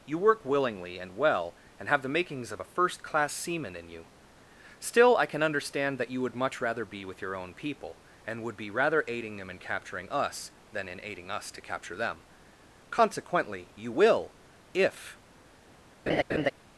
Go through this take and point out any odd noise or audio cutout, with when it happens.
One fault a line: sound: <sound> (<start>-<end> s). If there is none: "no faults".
sound: laugh (16.1-16.5 s)